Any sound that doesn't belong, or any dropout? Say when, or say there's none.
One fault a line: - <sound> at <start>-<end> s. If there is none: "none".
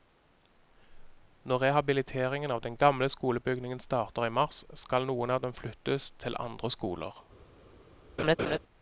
- laugh at 8.2-8.6 s